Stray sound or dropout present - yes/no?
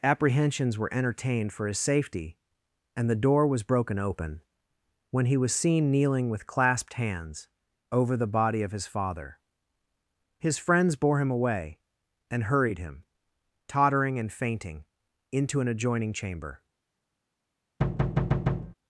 yes